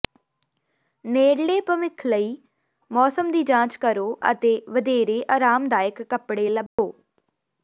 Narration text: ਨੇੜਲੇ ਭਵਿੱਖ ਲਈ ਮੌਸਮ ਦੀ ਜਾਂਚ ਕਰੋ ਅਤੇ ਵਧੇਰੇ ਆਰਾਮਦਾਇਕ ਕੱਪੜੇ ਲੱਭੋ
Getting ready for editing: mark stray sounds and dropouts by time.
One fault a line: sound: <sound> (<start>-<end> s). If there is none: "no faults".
sound: dropout (6.7-6.8 s)